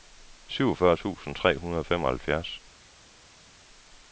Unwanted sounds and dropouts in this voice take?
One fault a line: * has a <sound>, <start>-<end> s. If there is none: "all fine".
all fine